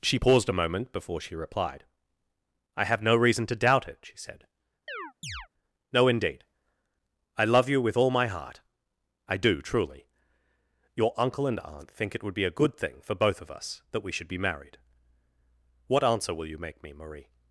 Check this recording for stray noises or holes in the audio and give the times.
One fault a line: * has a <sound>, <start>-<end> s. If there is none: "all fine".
* has a chirp, 4.9-5.5 s